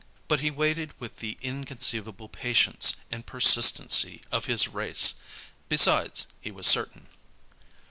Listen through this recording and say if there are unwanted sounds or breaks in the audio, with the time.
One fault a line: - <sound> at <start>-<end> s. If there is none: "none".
none